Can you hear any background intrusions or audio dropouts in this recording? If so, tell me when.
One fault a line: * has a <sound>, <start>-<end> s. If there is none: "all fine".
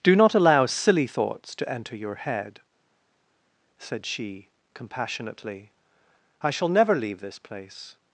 all fine